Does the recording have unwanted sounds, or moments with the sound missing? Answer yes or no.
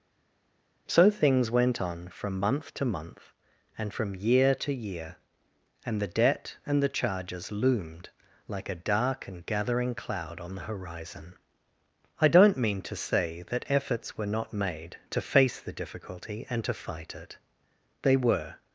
no